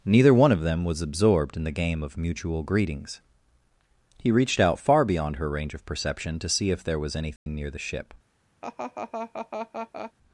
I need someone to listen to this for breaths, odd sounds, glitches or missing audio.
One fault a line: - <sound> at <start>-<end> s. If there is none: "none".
- dropout at 7.4-7.5 s
- laugh at 8.6-10.1 s